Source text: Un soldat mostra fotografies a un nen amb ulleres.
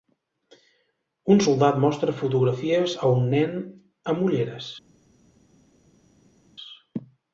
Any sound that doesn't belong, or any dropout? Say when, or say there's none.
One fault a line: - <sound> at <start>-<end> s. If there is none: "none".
none